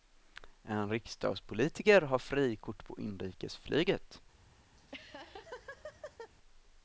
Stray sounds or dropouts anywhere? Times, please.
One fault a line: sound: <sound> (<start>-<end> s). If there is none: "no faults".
sound: laugh (4.8-6.3 s)